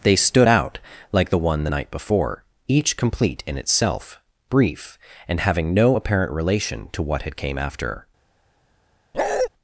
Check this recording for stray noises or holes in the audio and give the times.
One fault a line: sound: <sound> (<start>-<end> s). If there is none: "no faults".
sound: bark (9.1-9.5 s)